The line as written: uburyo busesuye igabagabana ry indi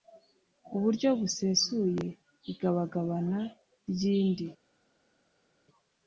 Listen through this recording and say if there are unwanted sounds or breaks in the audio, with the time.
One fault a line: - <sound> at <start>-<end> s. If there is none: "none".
none